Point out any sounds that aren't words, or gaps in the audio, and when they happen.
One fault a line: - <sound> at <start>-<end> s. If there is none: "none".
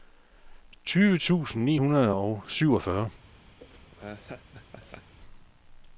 - laugh at 3.6-5.1 s